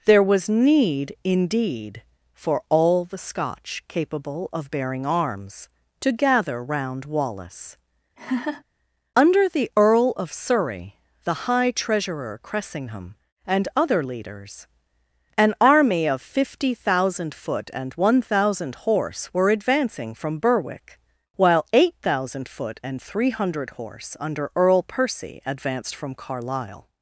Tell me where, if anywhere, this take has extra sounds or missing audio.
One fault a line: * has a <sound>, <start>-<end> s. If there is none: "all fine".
* has a laugh, 8.2-8.6 s